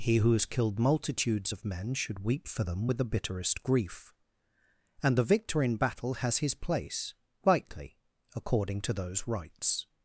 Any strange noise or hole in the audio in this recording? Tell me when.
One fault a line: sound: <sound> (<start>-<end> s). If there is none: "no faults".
no faults